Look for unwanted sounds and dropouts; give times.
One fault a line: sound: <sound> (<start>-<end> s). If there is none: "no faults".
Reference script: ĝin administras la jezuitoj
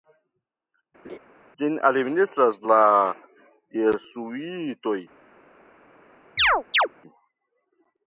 sound: laugh (1.0-1.2 s)
sound: chirp (6.4-6.9 s)